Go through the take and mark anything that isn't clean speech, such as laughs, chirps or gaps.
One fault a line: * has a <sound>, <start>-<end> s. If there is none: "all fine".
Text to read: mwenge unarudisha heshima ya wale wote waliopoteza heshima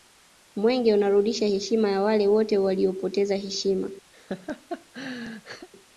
* has a laugh, 4.1-5.7 s